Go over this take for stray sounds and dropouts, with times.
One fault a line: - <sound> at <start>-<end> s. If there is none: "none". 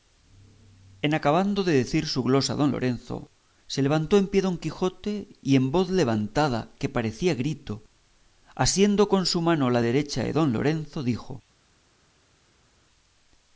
none